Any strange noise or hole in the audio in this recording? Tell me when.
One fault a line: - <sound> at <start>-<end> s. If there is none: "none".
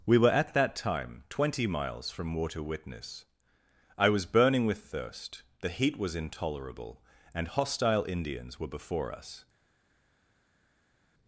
none